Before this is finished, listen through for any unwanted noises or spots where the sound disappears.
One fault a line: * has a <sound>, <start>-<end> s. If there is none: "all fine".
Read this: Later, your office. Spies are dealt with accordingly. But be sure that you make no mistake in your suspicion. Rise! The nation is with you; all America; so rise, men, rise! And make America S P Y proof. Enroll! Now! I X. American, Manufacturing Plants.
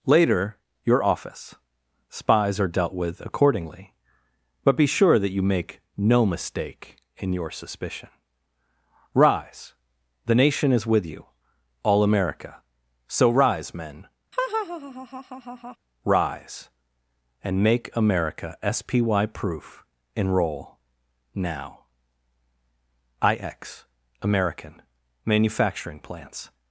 * has a laugh, 14.3-15.8 s